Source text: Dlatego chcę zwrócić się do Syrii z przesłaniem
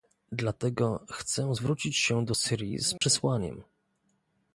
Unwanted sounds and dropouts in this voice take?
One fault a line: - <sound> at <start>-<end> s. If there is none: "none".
- dropout at 3.0-3.0 s